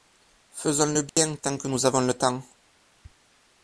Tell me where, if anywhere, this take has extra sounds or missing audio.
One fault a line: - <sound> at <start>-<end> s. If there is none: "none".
- dropout at 1.1-1.2 s